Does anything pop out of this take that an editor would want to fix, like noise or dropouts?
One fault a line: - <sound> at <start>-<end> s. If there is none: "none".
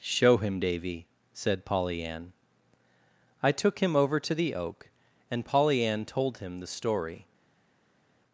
none